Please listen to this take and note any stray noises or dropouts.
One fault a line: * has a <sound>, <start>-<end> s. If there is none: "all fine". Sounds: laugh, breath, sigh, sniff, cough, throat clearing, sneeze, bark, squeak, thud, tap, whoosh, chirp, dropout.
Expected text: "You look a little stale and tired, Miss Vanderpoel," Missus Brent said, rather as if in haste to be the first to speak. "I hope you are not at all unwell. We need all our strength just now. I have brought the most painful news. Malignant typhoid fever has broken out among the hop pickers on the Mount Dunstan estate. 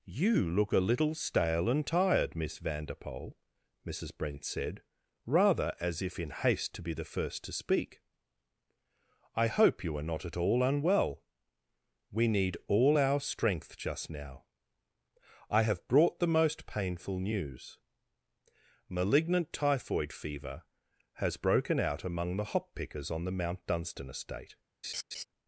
* has a laugh, 24.8-25.2 s